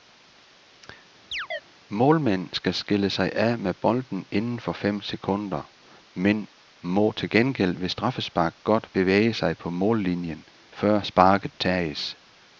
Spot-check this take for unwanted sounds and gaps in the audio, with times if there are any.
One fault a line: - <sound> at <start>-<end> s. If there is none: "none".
- chirp at 1.3-1.6 s